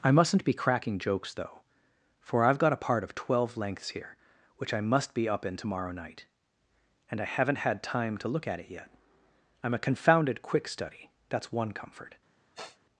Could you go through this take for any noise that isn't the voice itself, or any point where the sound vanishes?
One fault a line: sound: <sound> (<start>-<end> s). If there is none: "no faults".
sound: sniff (12.5-12.8 s)